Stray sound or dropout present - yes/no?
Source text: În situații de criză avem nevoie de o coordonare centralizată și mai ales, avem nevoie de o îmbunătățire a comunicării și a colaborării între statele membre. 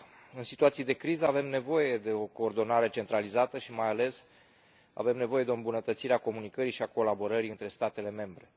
no